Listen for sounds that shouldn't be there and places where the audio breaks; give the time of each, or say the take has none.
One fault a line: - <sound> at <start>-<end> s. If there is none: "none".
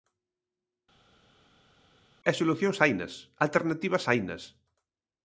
none